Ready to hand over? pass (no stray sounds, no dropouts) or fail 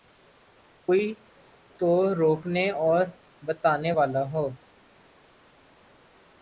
pass